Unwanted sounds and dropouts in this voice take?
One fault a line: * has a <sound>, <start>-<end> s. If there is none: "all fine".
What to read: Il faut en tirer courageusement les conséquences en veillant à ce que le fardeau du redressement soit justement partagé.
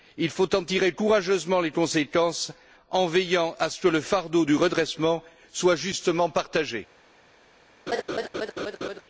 * has a laugh, 7.9-9.0 s